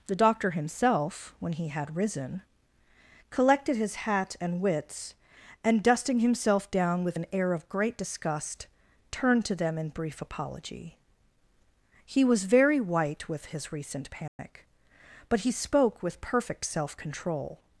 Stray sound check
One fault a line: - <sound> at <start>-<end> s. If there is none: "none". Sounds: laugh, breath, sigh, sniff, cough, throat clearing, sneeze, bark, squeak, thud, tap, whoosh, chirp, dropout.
- dropout at 14.3-14.4 s